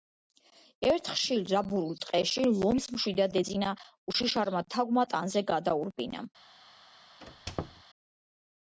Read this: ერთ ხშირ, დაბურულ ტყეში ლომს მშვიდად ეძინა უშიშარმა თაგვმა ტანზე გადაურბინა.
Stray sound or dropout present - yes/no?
yes